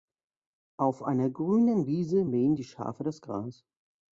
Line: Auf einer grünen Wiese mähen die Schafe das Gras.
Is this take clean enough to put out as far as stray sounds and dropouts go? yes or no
yes